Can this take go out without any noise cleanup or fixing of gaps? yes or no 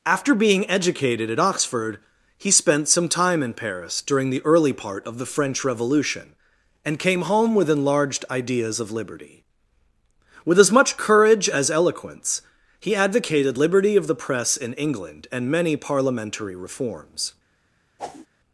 no